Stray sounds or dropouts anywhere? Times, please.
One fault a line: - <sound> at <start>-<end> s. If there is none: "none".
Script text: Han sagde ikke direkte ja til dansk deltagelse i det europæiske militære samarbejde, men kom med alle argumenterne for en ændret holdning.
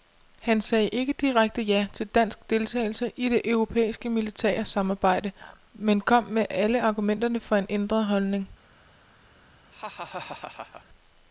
- laugh at 9.7-10.9 s